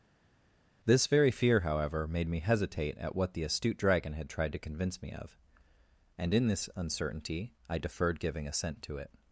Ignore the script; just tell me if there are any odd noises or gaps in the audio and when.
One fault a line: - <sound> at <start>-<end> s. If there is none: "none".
none